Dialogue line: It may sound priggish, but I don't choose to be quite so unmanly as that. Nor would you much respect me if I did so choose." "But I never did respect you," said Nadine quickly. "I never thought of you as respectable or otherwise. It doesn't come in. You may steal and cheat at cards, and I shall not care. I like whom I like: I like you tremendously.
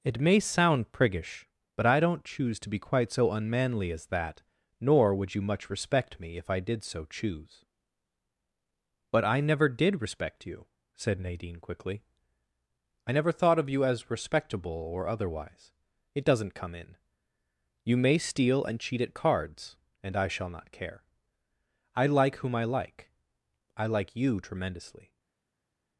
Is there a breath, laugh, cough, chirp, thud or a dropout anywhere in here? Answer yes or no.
no